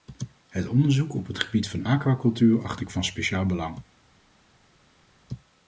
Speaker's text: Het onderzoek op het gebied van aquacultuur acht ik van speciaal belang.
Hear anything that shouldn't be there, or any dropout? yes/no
no